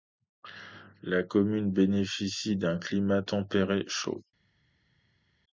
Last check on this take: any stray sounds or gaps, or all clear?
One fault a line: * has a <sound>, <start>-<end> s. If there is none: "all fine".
all fine